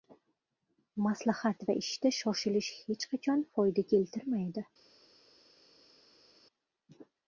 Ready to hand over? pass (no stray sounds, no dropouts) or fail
pass